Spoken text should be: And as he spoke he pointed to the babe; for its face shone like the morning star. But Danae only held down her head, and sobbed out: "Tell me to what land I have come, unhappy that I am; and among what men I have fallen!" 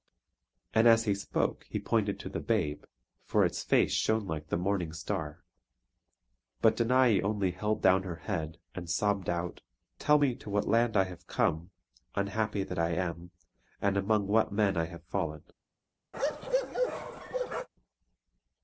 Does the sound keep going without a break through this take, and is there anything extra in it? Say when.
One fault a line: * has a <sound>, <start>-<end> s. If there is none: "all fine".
* has a bark, 16.1-17.7 s